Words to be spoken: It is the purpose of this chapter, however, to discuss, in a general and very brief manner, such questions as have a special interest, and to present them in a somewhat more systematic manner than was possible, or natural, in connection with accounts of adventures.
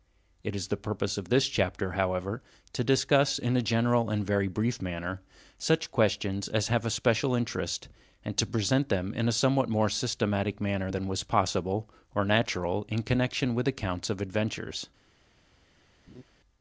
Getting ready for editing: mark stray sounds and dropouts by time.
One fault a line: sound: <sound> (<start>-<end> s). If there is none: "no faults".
sound: laugh (16.1-16.2 s)